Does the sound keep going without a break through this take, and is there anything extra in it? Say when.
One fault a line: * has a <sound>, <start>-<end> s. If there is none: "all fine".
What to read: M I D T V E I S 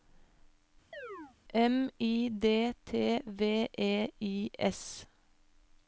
* has a chirp, 0.9-1.4 s